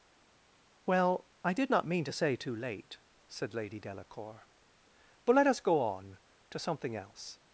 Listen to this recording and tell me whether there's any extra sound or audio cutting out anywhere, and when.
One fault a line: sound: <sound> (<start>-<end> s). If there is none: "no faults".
no faults